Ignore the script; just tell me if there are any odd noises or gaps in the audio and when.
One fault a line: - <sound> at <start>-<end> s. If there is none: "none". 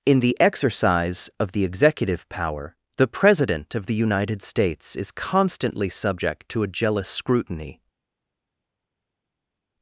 none